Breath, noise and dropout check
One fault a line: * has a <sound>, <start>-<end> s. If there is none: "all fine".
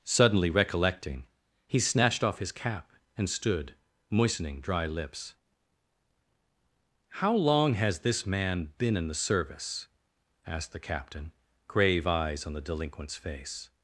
all fine